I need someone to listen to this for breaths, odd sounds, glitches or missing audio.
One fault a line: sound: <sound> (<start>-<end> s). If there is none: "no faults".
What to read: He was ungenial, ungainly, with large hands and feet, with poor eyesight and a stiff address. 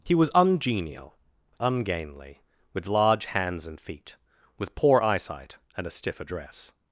no faults